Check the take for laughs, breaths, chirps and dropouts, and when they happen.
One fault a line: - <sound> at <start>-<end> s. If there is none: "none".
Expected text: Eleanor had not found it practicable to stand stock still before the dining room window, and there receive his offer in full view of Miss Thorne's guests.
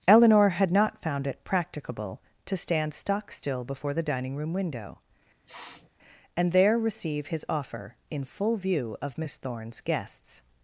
- sniff at 5.4-5.9 s